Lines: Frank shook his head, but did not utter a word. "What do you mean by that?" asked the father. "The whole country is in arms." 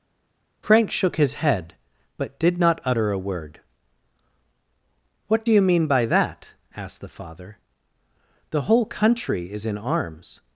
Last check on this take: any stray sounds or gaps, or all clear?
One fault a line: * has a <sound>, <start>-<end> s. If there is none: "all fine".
all fine